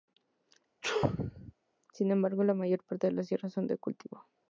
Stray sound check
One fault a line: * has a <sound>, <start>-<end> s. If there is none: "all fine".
* has a sneeze, 0.8-1.5 s